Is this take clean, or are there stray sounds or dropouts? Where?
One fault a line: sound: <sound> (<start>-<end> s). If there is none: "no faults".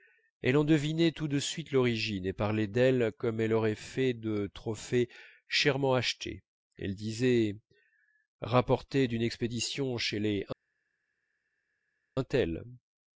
no faults